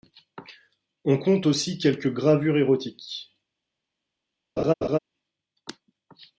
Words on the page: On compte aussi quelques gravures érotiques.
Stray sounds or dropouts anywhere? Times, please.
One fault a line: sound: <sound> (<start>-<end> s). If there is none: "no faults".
sound: laugh (4.6-5.0 s)